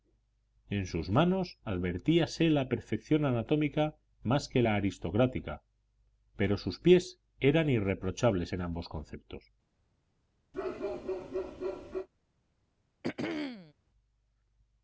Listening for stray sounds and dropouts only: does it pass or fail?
fail